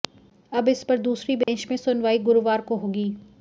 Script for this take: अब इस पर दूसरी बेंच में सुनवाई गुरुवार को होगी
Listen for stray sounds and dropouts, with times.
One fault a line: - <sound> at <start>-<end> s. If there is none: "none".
- dropout at 1.4-1.5 s